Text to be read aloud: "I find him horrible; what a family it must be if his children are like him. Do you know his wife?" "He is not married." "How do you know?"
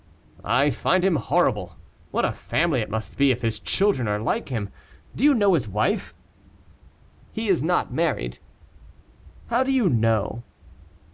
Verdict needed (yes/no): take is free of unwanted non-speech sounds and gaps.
yes